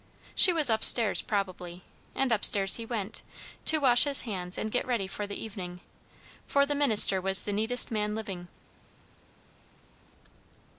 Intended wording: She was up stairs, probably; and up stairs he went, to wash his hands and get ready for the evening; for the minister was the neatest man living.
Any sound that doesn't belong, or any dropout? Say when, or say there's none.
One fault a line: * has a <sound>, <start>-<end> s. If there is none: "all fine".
all fine